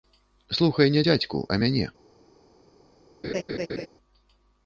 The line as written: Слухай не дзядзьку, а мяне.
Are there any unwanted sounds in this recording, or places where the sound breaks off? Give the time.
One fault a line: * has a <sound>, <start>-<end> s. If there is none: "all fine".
* has a laugh, 3.2-3.9 s